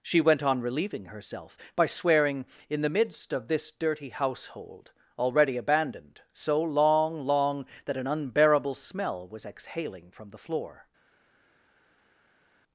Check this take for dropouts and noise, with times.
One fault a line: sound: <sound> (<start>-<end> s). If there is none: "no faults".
no faults